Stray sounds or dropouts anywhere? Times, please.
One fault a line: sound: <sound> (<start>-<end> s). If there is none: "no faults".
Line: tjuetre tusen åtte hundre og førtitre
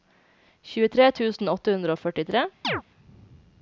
sound: chirp (2.6-2.8 s)